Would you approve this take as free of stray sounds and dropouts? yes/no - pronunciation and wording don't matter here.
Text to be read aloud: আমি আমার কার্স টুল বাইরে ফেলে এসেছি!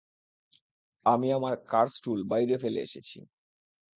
yes